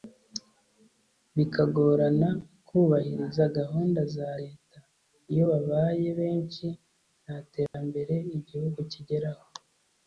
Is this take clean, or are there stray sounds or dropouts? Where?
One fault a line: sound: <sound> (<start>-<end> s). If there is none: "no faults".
sound: dropout (7.7-7.7 s)